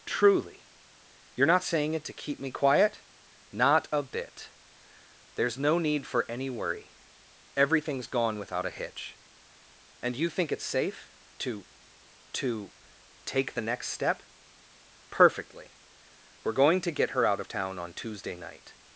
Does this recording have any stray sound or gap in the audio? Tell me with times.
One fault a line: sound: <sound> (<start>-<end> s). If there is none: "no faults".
no faults